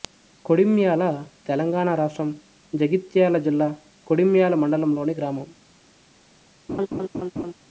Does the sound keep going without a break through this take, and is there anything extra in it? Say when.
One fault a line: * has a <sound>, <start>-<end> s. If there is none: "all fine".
* has a laugh, 6.7-7.5 s